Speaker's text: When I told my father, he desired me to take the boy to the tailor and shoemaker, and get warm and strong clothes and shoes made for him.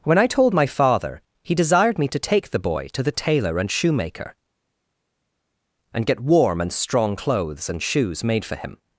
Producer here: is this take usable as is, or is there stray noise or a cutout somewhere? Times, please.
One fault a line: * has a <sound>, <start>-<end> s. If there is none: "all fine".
all fine